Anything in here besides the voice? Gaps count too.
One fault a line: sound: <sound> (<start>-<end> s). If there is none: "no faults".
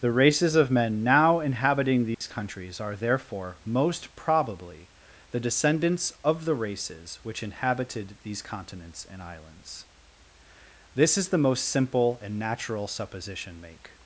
sound: dropout (2.1-2.2 s)